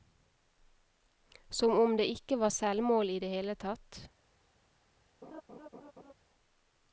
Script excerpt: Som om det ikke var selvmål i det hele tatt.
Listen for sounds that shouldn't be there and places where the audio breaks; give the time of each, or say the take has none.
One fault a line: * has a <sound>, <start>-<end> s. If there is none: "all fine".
* has a laugh, 5.2-6.1 s